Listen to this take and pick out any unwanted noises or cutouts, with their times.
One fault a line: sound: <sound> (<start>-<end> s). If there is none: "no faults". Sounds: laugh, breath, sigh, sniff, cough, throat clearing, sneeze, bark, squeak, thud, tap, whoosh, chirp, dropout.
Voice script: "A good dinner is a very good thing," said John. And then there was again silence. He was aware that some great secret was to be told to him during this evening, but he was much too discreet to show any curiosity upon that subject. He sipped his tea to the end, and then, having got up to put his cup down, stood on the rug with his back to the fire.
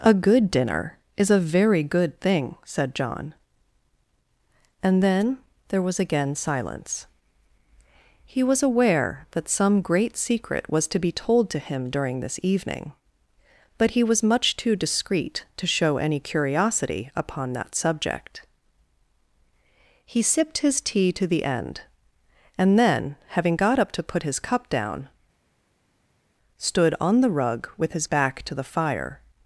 no faults